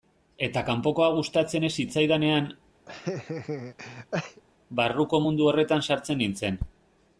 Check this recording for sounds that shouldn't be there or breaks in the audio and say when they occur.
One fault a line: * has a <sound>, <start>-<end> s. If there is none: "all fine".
* has a laugh, 2.9-4.4 s